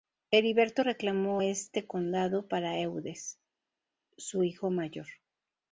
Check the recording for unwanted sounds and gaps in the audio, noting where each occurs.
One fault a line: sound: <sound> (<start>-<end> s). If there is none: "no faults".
no faults